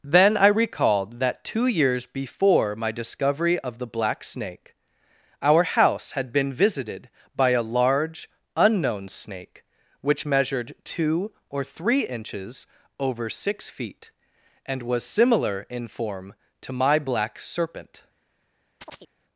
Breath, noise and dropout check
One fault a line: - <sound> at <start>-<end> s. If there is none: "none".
- chirp at 18.8-19.1 s